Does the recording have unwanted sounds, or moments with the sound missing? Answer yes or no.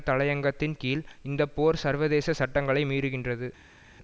no